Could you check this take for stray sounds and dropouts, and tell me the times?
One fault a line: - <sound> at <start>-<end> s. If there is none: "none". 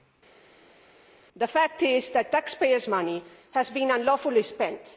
none